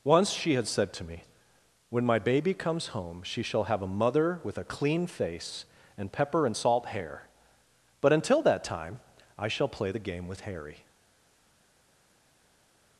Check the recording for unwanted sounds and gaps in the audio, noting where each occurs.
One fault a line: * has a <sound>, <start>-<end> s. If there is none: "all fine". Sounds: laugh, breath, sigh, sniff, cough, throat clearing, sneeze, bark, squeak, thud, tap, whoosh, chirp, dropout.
all fine